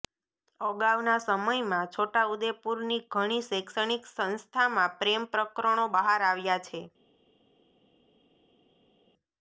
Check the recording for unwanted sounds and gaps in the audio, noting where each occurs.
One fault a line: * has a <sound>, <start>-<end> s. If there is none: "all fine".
all fine